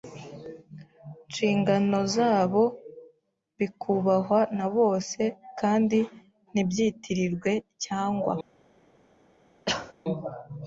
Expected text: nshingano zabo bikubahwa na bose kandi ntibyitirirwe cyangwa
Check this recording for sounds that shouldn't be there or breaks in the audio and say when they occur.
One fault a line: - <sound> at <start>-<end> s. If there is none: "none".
- cough at 9.6-9.9 s